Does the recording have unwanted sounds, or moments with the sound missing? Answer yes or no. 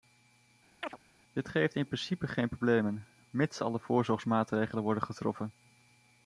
yes